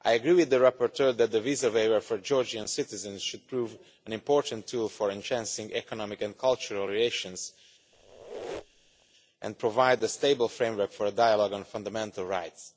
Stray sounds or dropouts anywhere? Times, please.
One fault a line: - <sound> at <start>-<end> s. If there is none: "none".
- squeak at 7.9-9.1 s